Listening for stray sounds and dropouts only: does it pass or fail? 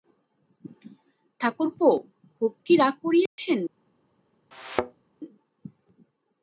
fail